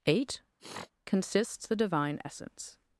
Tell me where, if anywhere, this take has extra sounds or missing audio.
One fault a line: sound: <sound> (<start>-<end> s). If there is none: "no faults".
sound: sniff (0.6-0.9 s)